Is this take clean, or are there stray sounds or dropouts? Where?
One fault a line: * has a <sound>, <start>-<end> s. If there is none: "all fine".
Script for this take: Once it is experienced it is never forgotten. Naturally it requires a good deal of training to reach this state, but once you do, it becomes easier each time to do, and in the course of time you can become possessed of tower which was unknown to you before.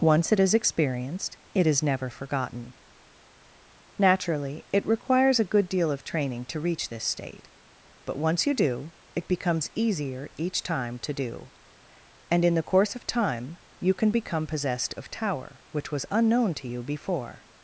all fine